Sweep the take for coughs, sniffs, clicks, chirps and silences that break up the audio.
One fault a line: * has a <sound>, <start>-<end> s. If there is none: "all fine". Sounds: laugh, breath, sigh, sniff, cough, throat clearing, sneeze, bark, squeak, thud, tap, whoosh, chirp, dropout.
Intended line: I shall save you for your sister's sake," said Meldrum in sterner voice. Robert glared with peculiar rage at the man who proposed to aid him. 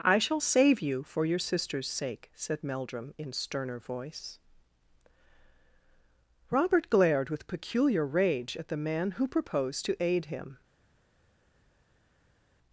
all fine